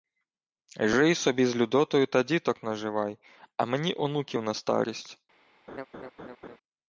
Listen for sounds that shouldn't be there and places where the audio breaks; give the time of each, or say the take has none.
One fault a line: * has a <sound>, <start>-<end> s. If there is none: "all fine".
* has a laugh, 5.7-6.6 s